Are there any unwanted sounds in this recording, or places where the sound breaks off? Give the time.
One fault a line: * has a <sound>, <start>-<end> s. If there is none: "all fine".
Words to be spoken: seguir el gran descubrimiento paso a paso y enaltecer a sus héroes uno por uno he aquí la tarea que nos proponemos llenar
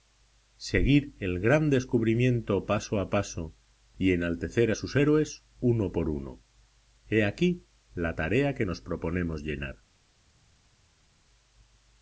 all fine